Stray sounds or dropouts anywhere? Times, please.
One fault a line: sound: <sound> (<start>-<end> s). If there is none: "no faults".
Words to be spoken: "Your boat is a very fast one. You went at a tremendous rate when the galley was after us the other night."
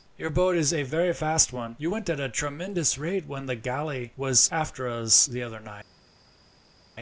no faults